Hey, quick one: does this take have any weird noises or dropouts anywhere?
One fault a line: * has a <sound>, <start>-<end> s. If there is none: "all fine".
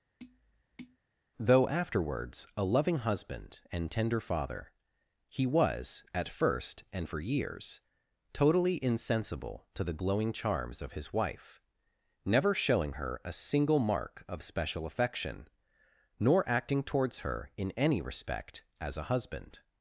* has a tap, 0.2-1.0 s